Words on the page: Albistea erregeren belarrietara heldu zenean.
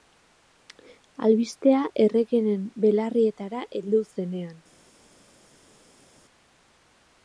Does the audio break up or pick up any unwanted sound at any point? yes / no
no